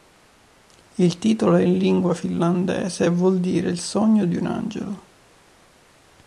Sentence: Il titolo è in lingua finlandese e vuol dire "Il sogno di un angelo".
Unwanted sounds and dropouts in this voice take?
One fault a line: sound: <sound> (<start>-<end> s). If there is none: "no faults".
no faults